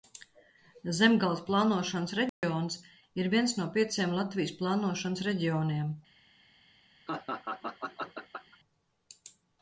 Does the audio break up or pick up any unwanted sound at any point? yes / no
yes